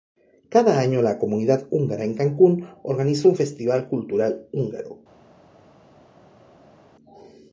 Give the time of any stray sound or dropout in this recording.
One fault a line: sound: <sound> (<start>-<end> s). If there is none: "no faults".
no faults